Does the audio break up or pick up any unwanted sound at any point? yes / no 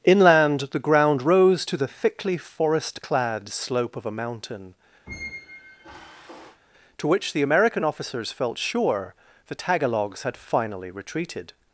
yes